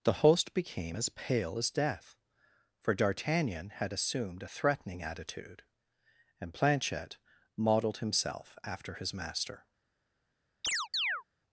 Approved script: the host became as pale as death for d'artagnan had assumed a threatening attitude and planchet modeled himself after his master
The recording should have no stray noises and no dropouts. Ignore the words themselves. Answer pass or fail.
fail